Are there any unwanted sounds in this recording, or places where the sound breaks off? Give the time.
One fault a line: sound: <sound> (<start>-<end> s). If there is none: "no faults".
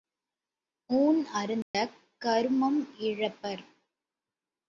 sound: dropout (1.6-1.7 s)